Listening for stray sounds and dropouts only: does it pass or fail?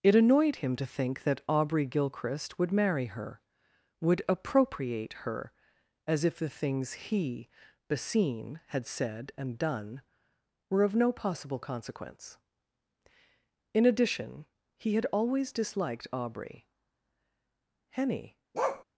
fail